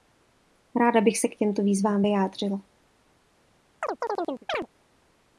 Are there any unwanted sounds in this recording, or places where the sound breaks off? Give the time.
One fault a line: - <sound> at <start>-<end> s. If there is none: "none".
- chirp at 3.8-4.7 s